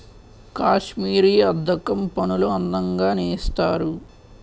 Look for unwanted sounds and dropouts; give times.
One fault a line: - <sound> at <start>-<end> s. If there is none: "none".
none